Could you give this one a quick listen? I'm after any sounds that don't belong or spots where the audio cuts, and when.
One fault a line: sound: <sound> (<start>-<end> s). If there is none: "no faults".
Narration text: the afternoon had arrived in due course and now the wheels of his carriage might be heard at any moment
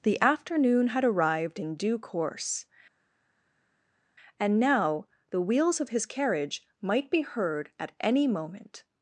no faults